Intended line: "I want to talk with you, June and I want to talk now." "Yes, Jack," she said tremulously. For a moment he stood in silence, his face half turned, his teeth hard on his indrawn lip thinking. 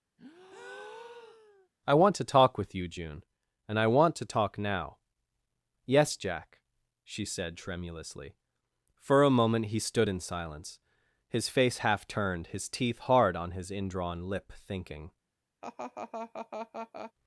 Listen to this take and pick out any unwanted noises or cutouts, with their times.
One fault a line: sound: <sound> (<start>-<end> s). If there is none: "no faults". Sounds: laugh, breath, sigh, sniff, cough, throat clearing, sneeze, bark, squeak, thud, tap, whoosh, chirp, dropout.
sound: breath (0.2-1.7 s)
sound: laugh (15.6-17.1 s)